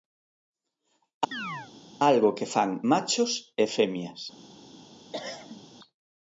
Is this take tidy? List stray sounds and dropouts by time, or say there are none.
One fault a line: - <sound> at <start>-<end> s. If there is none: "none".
- chirp at 1.3-1.7 s
- cough at 5.1-5.6 s